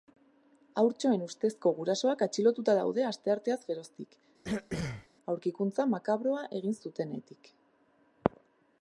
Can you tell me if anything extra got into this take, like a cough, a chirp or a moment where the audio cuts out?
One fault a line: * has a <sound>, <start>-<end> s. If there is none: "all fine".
* has a throat clearing, 4.4-5.1 s